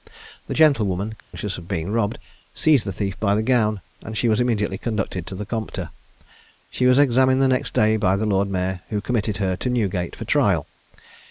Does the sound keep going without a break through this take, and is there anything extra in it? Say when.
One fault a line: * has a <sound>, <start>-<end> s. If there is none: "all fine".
* has a dropout, 1.2-1.3 s